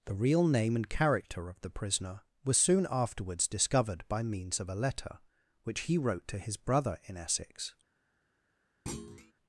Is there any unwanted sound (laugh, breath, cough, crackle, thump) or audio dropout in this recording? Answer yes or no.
yes